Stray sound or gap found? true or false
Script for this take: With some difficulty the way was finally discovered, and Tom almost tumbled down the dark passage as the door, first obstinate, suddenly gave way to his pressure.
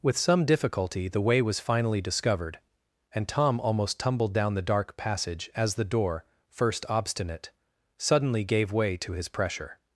false